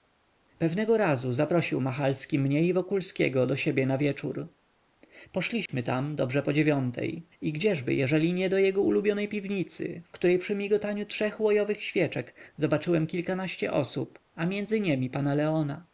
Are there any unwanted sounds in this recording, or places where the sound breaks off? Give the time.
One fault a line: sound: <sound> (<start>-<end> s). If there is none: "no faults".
sound: dropout (5.7-5.7 s)